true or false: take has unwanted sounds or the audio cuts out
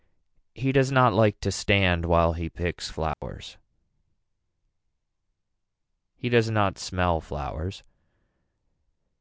true